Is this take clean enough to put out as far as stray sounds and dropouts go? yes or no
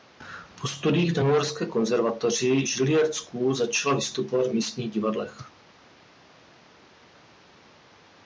yes